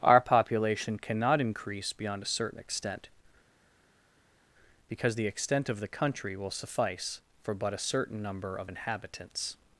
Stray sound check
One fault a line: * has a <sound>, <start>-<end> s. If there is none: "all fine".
all fine